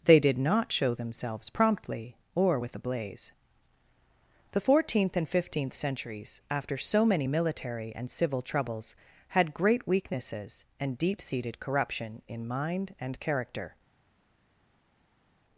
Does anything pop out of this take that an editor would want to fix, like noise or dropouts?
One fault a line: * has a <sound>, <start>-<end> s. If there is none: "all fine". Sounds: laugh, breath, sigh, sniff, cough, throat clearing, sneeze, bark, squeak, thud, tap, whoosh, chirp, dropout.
all fine